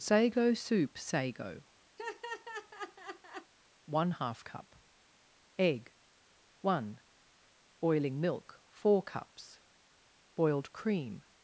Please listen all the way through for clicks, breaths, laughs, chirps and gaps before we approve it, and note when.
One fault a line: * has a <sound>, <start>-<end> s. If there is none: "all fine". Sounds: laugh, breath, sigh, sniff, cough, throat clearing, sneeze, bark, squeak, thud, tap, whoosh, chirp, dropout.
* has a laugh, 2.0-3.5 s